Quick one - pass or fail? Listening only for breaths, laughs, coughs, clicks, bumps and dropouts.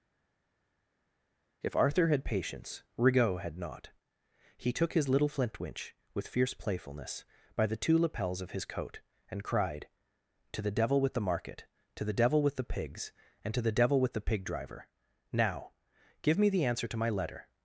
pass